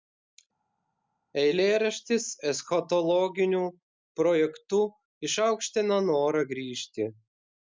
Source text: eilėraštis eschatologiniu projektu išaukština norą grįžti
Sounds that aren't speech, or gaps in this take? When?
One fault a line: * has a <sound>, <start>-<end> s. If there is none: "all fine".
all fine